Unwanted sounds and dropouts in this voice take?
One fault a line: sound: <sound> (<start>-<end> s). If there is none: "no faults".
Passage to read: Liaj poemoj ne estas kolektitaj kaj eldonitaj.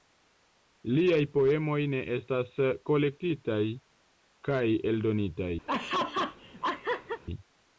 sound: laugh (5.7-7.2 s)